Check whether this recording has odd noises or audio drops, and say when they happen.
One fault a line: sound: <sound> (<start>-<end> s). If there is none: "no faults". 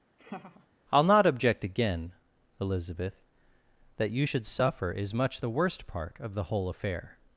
sound: laugh (0.2-0.7 s)